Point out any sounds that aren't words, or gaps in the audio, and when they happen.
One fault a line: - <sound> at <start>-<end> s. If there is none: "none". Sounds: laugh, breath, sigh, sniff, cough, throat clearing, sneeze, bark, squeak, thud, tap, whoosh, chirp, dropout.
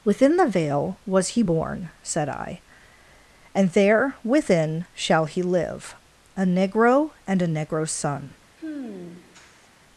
- sigh at 8.6-9.7 s